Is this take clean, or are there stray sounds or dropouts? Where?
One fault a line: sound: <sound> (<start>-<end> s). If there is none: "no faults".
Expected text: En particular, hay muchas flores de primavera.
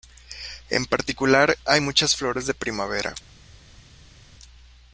no faults